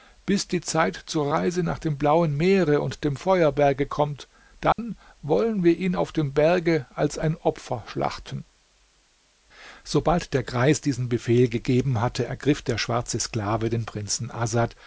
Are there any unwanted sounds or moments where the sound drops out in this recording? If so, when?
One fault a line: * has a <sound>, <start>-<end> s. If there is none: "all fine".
* has a dropout, 4.7-4.8 s